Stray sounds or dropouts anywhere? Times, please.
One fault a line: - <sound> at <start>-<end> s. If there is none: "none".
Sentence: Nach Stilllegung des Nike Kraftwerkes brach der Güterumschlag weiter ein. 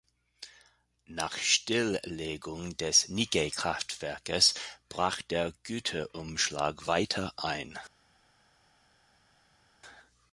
none